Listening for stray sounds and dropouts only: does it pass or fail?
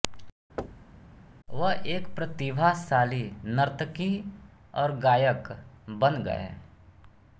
fail